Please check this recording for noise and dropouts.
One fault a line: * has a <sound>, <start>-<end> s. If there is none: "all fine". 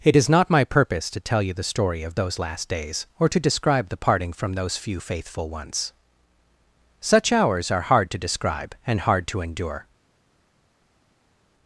all fine